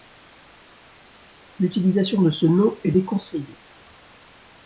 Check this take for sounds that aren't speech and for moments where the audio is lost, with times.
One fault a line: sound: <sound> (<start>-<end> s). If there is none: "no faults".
no faults